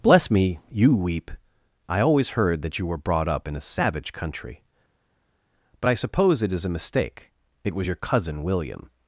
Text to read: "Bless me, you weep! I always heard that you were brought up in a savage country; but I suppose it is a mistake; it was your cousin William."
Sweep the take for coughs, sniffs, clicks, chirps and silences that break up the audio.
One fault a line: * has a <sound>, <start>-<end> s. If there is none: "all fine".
all fine